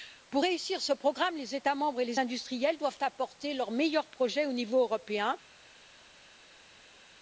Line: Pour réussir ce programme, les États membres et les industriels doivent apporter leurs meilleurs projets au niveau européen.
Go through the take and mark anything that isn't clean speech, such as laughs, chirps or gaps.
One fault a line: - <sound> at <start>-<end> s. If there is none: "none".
none